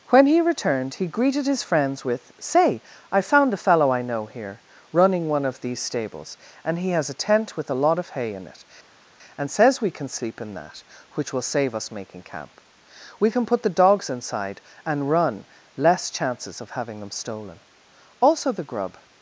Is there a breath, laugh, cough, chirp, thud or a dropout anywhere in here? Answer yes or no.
no